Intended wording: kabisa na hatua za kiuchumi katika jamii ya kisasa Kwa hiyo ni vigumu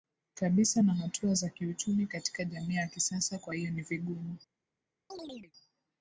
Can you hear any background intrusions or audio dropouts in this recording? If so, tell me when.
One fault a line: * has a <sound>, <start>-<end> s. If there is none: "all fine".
* has a chirp, 5.1-5.5 s